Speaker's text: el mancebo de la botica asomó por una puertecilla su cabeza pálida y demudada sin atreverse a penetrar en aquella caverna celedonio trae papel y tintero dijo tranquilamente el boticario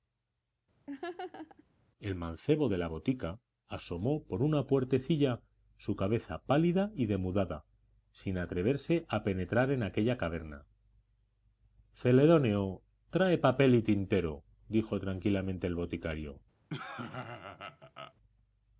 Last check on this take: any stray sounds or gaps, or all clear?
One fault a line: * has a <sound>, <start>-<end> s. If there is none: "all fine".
* has a laugh, 0.9-1.6 s
* has a laugh, 16.7-18.1 s